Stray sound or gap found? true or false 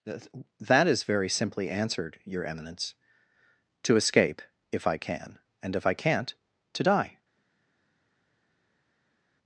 false